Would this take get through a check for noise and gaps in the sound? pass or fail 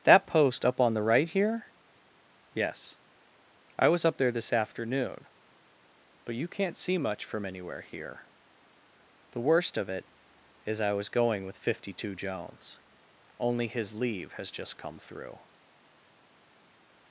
pass